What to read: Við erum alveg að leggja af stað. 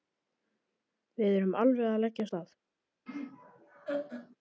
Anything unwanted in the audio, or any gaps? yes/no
yes